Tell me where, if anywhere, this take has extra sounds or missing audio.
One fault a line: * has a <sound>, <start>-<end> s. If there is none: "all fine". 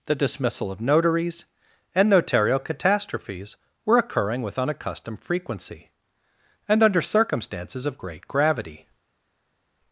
all fine